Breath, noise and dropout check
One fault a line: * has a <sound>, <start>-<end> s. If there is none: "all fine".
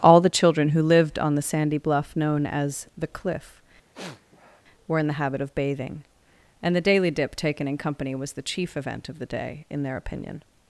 * has a sniff, 3.9-4.6 s